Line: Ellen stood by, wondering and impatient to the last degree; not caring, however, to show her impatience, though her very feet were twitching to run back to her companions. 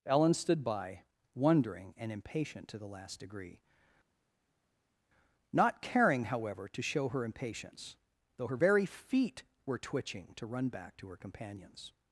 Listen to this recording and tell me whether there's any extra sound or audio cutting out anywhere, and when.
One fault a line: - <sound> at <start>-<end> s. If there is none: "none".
none